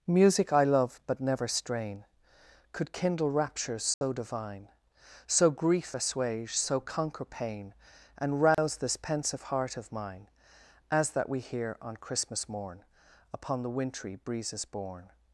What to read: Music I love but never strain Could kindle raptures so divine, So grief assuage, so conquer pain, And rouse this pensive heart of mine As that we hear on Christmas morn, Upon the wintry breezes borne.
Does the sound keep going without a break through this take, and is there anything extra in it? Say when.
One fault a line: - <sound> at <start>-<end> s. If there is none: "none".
- dropout at 3.9-4.0 s
- dropout at 8.5-8.6 s